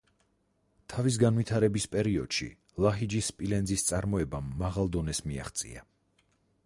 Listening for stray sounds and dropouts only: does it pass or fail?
pass